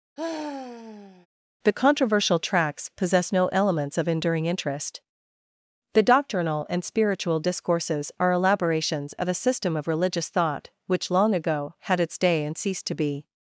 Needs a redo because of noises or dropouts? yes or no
yes